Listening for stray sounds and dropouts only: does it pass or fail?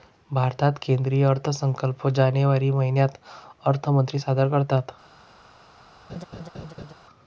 fail